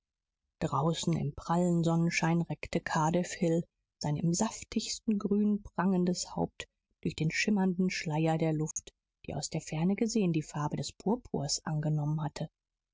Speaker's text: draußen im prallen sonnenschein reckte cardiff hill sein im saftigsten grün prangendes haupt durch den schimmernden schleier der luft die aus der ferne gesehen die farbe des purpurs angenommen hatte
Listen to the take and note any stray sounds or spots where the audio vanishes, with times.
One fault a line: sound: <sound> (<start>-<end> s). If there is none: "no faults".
sound: dropout (8.7-8.8 s)